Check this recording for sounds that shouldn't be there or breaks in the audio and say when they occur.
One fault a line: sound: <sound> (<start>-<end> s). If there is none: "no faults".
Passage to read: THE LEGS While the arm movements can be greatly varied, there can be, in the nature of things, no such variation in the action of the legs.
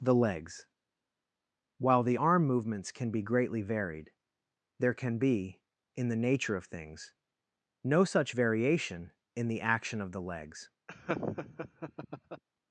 sound: laugh (10.9-12.4 s)